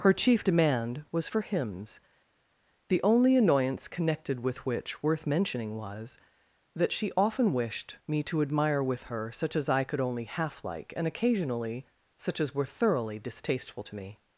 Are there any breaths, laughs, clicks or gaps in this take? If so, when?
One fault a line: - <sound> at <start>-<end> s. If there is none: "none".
none